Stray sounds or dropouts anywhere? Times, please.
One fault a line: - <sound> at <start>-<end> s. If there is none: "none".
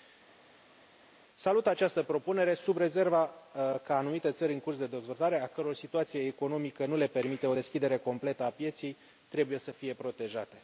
none